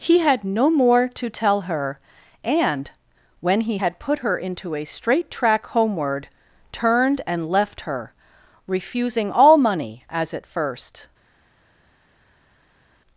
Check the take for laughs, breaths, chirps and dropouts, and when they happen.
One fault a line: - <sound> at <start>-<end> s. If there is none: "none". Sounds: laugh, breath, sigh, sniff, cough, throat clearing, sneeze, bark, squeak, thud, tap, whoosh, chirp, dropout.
none